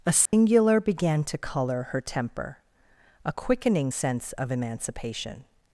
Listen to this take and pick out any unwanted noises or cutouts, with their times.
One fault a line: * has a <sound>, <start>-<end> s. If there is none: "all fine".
* has a dropout, 0.3-0.3 s